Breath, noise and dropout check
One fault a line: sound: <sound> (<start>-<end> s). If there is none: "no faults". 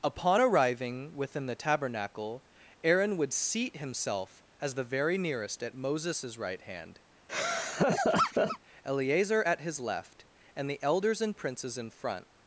sound: laugh (7.3-8.6 s)